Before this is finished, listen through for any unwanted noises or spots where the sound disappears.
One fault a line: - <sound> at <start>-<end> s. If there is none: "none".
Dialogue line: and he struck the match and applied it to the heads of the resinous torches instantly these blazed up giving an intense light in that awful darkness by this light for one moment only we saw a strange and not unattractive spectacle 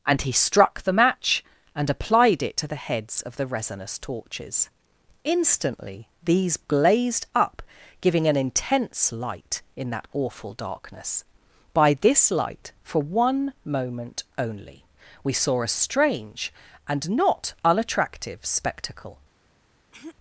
- throat clearing at 19.9-20.1 s